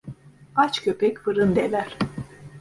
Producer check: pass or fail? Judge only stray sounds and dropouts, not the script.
pass